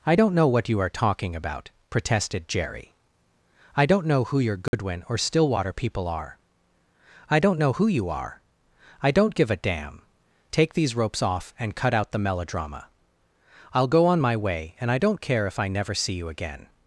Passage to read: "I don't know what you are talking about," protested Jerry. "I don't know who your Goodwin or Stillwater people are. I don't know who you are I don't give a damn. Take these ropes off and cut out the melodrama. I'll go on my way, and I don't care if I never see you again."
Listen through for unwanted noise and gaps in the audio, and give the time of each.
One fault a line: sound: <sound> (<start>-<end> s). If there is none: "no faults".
sound: dropout (4.7-4.7 s)